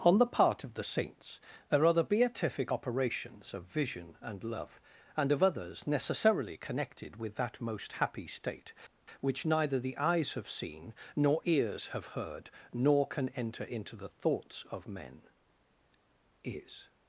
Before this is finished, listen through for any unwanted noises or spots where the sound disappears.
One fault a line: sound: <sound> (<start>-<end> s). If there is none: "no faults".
no faults